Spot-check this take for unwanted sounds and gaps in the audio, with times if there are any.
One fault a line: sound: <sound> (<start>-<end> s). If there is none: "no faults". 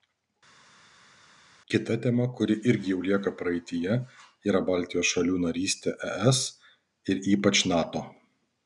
no faults